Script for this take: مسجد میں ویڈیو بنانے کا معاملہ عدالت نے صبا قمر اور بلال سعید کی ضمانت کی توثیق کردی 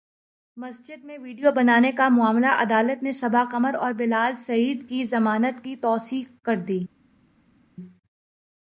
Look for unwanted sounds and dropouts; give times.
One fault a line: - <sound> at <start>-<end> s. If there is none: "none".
none